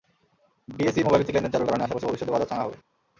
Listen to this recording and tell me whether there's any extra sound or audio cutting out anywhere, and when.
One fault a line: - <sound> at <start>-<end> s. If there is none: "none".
none